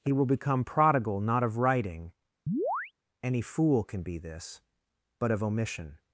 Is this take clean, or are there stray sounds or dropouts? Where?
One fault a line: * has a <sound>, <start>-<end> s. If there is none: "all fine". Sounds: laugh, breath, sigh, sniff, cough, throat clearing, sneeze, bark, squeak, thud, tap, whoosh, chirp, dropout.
* has a chirp, 2.5-2.9 s